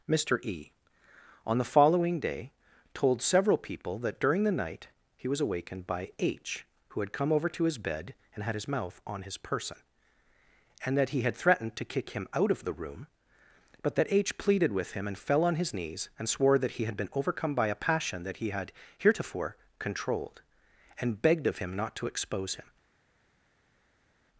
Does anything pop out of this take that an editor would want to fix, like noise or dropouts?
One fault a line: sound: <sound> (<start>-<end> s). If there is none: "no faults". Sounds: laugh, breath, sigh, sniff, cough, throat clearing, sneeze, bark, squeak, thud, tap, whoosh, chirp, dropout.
no faults